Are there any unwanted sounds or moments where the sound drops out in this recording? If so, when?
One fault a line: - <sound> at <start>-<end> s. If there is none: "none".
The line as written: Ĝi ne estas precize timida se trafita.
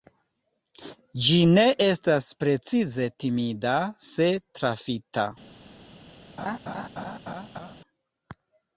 - laugh at 6.4-7.8 s